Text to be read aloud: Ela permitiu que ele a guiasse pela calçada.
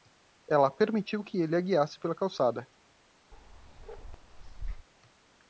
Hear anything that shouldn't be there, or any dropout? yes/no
yes